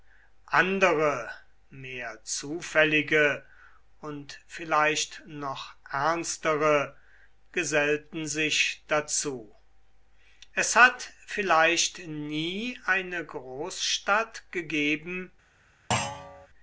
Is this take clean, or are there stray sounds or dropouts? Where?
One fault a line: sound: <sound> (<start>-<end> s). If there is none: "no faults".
sound: thud (15.9-16.5 s)